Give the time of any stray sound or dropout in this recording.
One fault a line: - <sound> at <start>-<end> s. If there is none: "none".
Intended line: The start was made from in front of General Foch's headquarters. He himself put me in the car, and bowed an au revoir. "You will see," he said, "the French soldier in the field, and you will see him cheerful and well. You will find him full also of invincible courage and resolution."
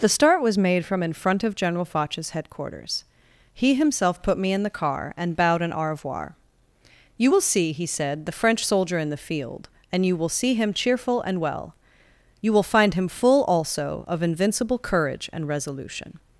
none